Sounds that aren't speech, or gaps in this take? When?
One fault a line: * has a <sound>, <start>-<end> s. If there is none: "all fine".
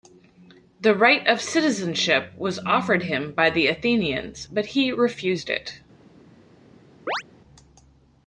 * has a chirp, 7.1-7.2 s